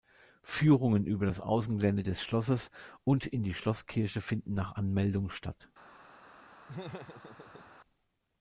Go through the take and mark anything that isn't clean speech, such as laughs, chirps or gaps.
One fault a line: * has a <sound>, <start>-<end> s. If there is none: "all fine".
* has a laugh, 6.7-7.7 s